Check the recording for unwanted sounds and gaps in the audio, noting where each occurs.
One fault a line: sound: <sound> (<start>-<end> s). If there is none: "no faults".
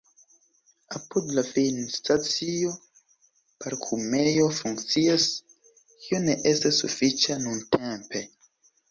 no faults